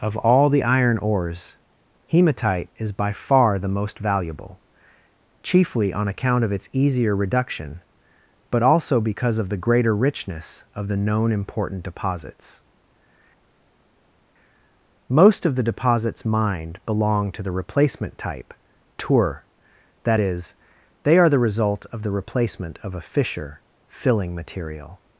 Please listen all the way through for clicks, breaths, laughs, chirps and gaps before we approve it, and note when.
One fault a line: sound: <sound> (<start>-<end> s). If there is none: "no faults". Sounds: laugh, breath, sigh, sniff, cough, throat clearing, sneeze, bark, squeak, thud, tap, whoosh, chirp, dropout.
no faults